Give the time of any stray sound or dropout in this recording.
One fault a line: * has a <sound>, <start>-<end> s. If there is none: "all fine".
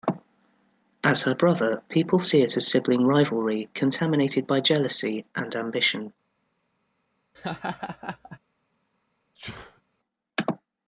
* has a laugh, 7.3-8.4 s
* has a sneeze, 9.3-9.8 s